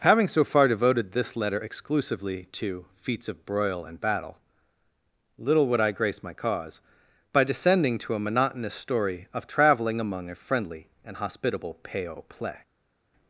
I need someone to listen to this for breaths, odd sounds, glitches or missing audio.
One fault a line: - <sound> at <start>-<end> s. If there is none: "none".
none